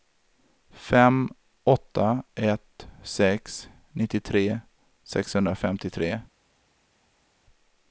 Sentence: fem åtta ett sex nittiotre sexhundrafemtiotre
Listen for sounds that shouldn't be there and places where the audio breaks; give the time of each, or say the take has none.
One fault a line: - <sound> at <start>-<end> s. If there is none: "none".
none